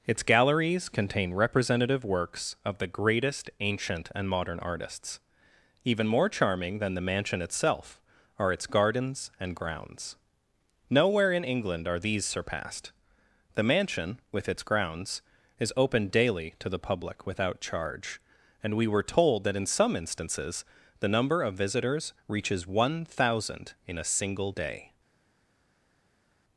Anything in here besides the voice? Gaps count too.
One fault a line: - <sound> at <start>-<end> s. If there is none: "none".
none